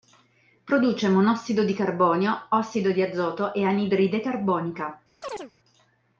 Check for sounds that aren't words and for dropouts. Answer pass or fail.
fail